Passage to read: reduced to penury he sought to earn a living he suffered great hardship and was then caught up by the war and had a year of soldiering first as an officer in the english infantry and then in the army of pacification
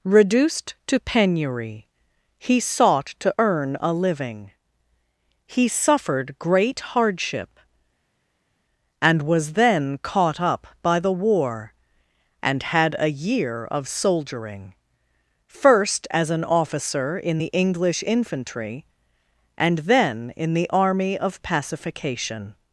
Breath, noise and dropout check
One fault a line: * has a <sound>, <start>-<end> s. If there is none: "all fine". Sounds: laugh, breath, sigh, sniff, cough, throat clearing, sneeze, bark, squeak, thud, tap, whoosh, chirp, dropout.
all fine